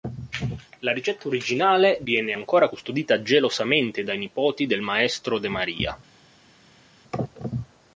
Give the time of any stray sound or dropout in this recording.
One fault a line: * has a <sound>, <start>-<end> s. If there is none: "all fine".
all fine